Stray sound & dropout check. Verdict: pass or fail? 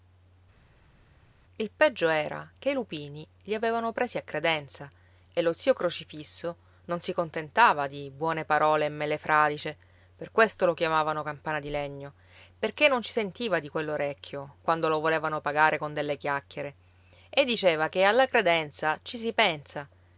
pass